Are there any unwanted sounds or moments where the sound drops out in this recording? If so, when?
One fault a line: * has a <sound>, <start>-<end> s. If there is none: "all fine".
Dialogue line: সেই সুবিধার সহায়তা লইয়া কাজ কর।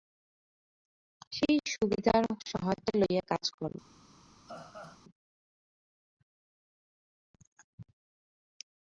* has a laugh, 4.5-5.0 s